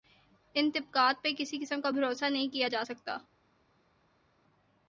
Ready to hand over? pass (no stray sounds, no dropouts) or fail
pass